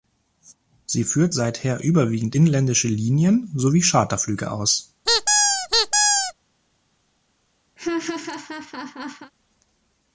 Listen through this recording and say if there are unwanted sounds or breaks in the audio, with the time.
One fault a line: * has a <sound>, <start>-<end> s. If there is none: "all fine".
* has a squeak, 5.1-6.3 s
* has a laugh, 7.8-9.3 s